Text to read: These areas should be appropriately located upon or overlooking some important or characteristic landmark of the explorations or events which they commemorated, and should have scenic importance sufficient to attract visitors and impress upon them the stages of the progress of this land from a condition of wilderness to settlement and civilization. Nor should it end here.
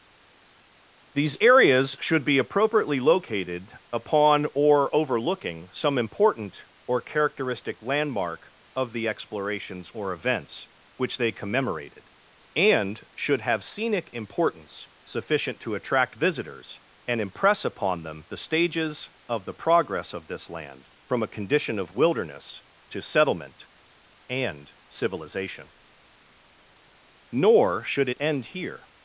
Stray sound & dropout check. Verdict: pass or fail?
pass